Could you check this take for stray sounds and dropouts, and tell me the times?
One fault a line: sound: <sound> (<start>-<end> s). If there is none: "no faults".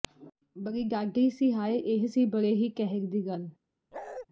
sound: bark (3.9-4.3 s)